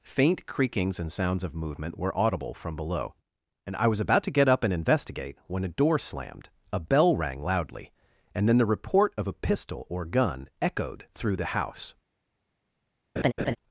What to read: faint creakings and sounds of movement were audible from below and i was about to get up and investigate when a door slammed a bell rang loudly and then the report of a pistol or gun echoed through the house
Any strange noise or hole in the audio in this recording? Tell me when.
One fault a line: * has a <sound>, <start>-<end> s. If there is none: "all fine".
* has a laugh, 13.2-13.6 s